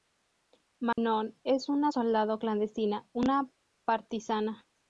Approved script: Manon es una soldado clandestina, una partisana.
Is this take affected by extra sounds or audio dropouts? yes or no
yes